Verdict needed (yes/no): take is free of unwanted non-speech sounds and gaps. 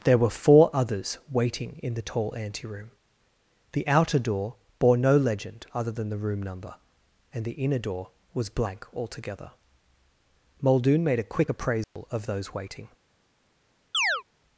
no